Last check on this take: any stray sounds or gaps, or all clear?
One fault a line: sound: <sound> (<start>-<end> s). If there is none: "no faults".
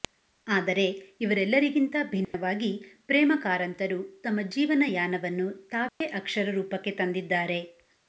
sound: dropout (2.2-2.3 s)
sound: dropout (5.9-6.0 s)